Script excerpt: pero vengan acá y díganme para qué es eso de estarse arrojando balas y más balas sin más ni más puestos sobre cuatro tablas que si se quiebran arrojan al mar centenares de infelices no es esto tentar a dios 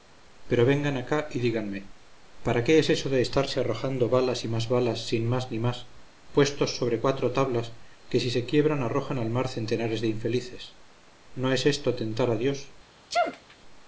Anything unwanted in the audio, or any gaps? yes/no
yes